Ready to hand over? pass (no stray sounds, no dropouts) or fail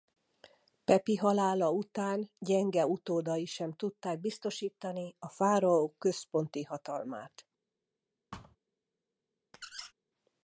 fail